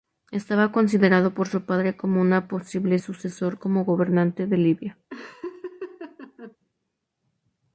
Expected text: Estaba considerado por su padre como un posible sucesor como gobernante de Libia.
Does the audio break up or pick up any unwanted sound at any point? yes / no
yes